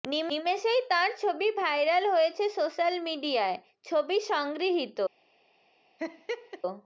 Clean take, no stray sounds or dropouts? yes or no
no